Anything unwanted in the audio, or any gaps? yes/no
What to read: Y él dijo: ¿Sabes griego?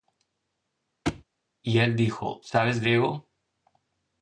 yes